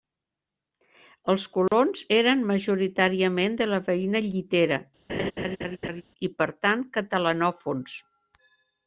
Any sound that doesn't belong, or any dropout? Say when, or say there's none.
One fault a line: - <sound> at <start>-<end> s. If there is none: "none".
- dropout at 1.7-1.7 s
- laugh at 5.1-6.0 s